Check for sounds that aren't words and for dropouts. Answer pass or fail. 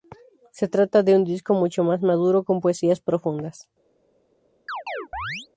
fail